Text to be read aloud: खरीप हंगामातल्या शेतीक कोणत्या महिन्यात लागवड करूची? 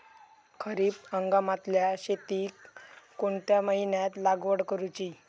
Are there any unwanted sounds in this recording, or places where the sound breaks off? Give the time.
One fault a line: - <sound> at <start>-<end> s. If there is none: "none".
none